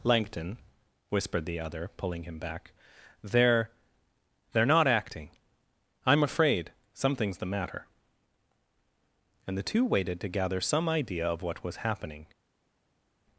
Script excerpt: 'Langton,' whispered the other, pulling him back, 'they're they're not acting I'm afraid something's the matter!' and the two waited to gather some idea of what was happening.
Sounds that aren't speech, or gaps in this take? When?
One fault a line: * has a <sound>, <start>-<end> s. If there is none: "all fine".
all fine